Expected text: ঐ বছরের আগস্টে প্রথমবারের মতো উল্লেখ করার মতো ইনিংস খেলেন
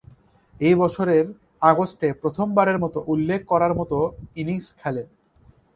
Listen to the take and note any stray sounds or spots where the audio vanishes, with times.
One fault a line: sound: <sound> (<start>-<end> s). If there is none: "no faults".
no faults